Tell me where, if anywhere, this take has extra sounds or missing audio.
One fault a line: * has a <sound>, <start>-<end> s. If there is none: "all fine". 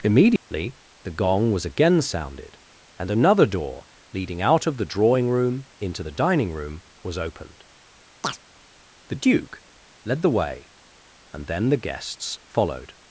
* has a dropout, 0.4-0.5 s
* has a chirp, 8.2-8.4 s